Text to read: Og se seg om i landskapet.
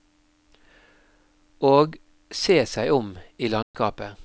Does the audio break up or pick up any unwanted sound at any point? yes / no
yes